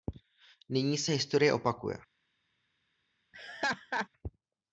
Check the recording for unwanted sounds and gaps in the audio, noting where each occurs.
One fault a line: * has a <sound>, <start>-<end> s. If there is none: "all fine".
* has a laugh, 3.3-4.1 s